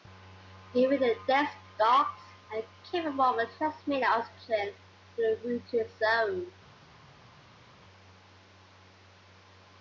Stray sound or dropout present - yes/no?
no